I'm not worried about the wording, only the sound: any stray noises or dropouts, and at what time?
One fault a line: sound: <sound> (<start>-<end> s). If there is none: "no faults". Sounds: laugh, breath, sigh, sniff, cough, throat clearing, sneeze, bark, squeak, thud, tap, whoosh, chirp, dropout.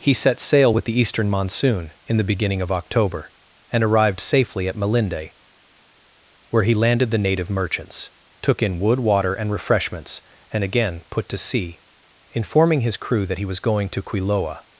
no faults